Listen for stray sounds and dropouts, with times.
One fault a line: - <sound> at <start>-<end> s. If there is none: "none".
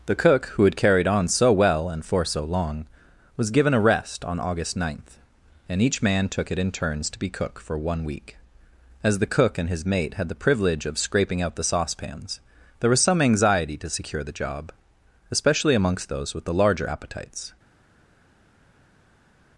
none